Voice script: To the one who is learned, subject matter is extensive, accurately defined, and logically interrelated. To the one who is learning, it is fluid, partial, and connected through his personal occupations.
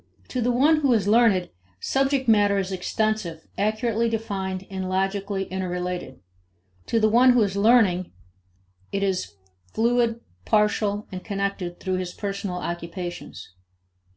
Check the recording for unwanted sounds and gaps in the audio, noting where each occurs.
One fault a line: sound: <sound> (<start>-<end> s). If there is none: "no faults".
no faults